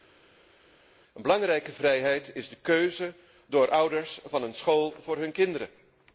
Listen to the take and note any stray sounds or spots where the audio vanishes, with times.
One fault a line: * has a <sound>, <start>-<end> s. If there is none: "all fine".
all fine